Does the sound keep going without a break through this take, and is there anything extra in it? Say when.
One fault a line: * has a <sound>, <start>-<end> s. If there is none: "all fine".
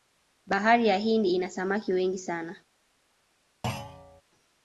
* has a thud, 3.6-4.2 s